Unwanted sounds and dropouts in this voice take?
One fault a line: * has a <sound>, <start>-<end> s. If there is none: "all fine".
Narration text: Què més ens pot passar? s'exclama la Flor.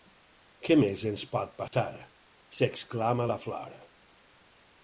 * has a dropout, 1.7-1.7 s